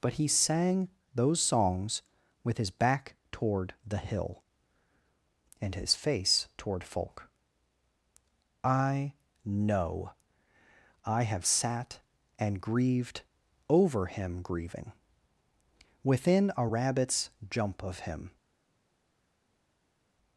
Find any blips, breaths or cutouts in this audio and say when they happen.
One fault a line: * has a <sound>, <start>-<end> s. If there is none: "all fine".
all fine